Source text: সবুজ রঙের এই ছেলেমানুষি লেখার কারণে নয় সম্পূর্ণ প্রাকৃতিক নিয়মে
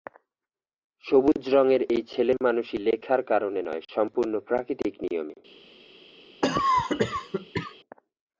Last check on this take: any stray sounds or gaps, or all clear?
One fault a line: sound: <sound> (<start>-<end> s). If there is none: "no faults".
sound: cough (6.4-7.8 s)